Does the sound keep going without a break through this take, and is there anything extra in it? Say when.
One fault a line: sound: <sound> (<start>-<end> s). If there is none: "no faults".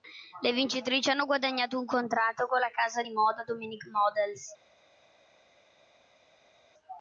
no faults